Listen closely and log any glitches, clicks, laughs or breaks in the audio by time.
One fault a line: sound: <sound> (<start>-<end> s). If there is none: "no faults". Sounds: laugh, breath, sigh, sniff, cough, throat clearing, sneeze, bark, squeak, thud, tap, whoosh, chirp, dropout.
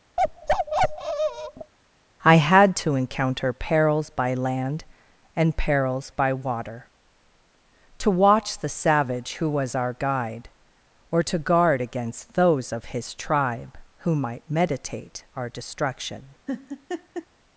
sound: bark (0.2-1.7 s)
sound: laugh (16.5-17.3 s)